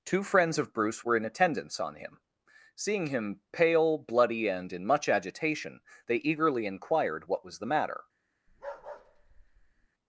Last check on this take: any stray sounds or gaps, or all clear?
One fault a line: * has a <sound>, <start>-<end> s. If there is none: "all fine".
* has a bark, 8.5-9.9 s